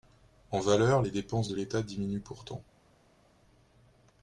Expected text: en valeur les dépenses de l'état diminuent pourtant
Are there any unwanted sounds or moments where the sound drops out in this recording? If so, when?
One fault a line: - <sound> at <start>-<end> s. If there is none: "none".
none